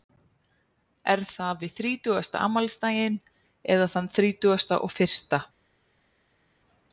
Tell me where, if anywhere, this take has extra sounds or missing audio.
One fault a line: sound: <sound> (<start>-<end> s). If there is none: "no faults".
no faults